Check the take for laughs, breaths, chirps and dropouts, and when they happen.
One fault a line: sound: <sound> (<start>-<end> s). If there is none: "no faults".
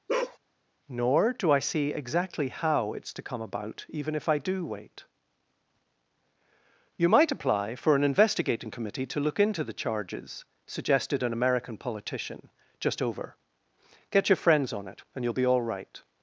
sound: bark (0.1-0.4 s)